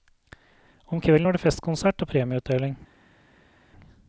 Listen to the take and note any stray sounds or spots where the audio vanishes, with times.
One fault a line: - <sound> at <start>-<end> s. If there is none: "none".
none